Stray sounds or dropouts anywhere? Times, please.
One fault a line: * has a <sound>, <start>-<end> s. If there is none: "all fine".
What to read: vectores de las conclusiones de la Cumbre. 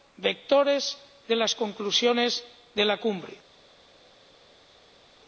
all fine